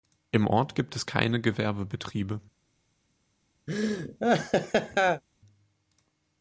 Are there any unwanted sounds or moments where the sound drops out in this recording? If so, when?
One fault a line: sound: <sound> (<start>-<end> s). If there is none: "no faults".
sound: laugh (3.7-5.2 s)